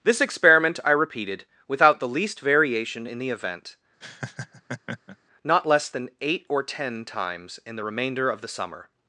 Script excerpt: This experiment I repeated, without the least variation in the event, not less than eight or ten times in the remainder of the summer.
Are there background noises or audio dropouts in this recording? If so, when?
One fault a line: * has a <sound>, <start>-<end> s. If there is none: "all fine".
* has a laugh, 4.0-5.2 s